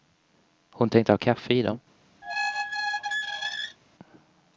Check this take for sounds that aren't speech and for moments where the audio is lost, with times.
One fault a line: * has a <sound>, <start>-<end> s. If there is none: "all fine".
* has a squeak, 2.2-3.8 s